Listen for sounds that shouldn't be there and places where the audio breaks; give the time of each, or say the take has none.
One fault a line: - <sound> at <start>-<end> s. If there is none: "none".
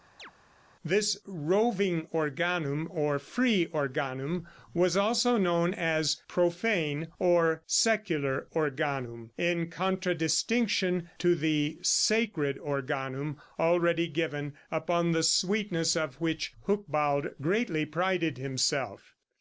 - chirp at 0.2-0.3 s